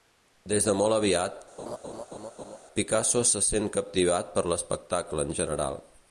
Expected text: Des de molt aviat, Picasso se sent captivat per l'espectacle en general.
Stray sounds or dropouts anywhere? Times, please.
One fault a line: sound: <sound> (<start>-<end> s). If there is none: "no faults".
sound: laugh (1.6-2.6 s)